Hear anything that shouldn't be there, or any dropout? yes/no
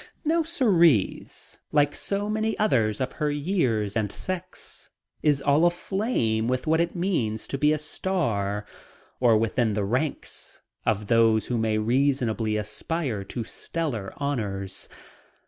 no